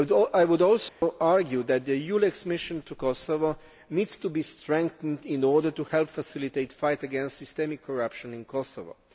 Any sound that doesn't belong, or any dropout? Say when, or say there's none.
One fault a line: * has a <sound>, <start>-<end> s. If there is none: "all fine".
* has a dropout, 0.9-1.0 s